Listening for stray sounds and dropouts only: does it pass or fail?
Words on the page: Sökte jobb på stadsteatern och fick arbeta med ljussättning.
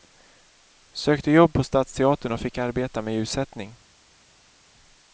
pass